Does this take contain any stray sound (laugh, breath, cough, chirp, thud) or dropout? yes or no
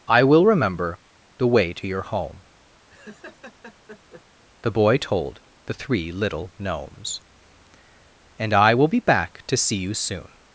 yes